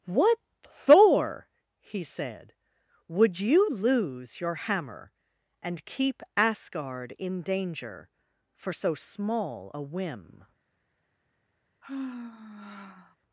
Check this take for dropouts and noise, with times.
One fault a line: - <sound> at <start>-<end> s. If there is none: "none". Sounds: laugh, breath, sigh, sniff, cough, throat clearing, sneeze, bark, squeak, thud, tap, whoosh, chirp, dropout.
- sigh at 11.8-13.2 s